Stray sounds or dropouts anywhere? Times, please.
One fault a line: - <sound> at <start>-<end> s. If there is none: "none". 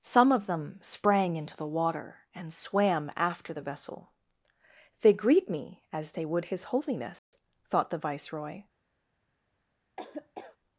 - dropout at 7.2-7.3 s
- laugh at 10.0-10.6 s